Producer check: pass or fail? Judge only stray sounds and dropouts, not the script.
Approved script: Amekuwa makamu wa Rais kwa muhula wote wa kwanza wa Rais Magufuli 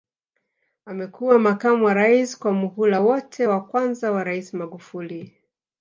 pass